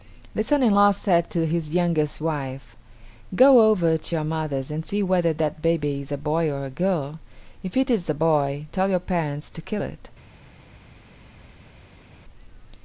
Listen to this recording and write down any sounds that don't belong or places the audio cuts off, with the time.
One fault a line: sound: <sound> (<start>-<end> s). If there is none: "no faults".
no faults